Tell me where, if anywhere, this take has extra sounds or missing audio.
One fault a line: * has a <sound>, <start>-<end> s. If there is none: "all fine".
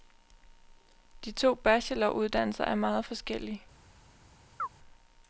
* has a chirp, 4.6-4.7 s